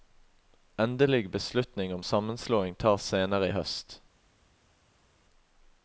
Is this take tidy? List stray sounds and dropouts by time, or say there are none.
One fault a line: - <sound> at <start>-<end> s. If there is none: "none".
none